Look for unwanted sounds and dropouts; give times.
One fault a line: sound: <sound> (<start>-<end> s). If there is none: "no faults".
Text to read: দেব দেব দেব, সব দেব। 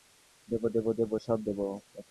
no faults